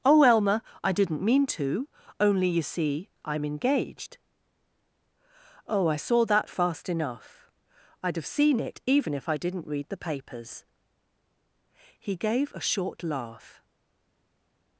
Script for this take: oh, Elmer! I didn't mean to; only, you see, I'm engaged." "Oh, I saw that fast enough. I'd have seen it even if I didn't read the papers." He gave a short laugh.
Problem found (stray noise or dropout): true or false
false